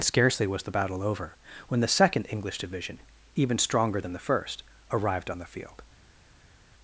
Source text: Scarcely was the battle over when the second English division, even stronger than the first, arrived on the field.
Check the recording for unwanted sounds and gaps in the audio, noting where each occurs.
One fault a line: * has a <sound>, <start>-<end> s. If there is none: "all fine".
all fine